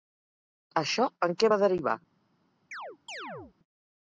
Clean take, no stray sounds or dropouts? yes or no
no